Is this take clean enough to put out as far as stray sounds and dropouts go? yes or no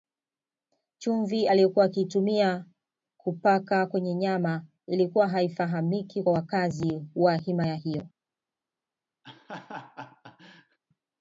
no